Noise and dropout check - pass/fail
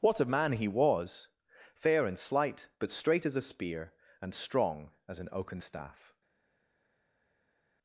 pass